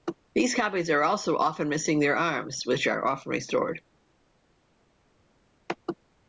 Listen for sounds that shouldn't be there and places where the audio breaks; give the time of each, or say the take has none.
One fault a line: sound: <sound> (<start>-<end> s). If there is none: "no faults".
no faults